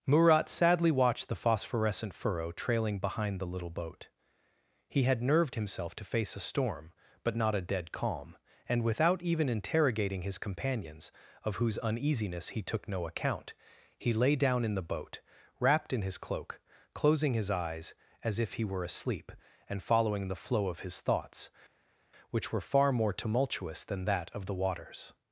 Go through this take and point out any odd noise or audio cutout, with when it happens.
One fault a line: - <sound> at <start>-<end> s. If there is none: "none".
none